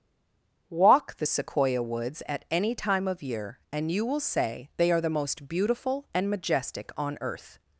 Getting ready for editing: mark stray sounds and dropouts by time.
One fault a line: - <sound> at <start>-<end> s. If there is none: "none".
none